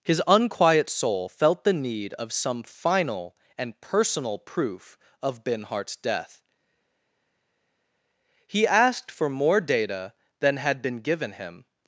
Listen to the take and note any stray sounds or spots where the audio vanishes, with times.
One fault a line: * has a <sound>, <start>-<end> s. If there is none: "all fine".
all fine